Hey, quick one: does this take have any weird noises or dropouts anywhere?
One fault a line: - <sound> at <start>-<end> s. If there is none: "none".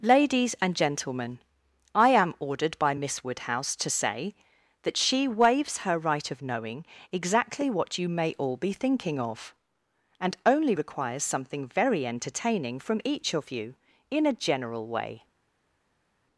none